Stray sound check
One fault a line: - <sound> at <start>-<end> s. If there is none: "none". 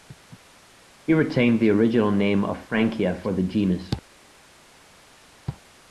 none